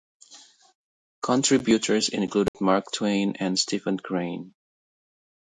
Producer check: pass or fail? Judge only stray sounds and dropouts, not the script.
fail